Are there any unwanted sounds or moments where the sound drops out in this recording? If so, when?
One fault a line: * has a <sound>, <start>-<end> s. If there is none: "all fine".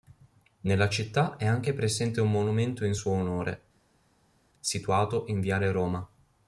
all fine